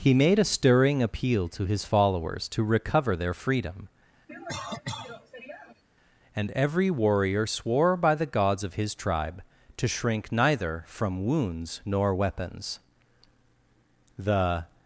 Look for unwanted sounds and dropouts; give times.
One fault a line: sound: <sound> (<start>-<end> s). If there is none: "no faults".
sound: cough (4.3-5.8 s)